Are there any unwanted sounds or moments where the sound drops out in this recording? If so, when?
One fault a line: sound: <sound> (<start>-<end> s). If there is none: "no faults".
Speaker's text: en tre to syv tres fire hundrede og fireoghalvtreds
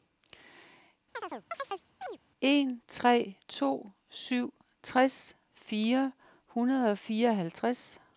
sound: chirp (1.1-2.2 s)